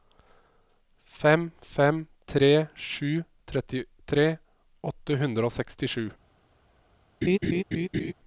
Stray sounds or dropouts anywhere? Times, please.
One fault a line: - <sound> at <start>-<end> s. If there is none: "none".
- laugh at 7.2-8.1 s